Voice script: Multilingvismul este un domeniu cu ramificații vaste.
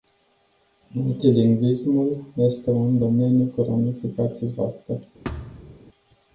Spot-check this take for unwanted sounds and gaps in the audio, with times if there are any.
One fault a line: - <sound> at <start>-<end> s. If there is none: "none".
- thud at 5.2-5.8 s